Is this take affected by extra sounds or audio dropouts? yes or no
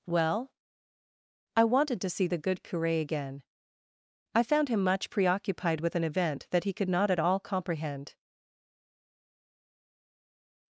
no